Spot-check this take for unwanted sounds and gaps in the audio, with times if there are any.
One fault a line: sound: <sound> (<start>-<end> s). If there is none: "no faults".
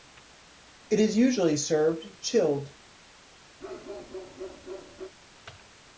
sound: bark (3.6-5.1 s)